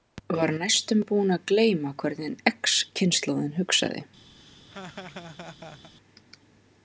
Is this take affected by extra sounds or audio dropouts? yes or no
yes